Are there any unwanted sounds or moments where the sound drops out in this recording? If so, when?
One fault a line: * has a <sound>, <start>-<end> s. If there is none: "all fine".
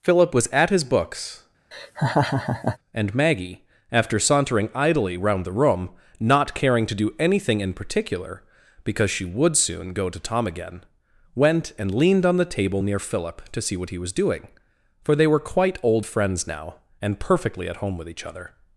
* has a laugh, 1.7-2.8 s